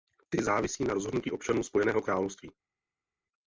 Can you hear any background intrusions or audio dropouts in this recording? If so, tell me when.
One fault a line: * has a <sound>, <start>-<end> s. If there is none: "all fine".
all fine